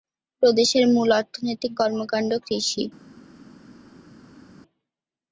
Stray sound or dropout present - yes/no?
no